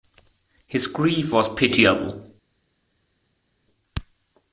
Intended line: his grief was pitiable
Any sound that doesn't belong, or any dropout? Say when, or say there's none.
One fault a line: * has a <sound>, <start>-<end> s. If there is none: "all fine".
all fine